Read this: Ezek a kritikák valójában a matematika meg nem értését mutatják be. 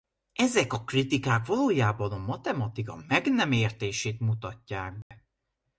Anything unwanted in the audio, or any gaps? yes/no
yes